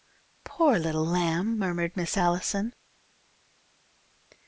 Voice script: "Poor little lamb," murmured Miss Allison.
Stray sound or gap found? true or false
false